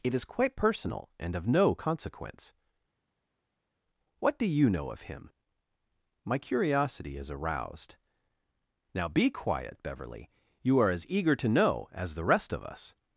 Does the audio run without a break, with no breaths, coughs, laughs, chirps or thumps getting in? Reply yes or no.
yes